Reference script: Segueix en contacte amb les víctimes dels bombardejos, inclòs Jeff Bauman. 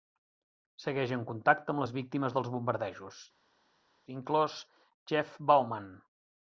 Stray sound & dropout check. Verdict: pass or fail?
pass